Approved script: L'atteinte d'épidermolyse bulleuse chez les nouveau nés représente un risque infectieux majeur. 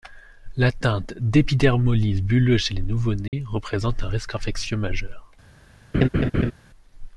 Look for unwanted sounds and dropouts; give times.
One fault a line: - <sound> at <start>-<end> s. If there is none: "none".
- dropout at 3.3-3.3 s
- laugh at 5.9-6.5 s